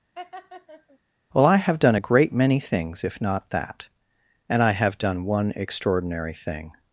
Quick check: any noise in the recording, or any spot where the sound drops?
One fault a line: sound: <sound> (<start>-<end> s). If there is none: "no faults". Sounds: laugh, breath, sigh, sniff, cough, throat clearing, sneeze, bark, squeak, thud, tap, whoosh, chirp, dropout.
sound: laugh (0.1-1.0 s)